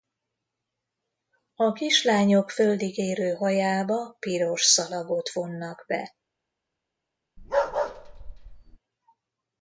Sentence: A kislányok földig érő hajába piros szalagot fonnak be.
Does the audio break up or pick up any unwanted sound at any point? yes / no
yes